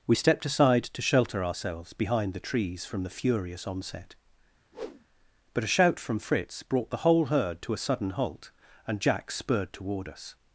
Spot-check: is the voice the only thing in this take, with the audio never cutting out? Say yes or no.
no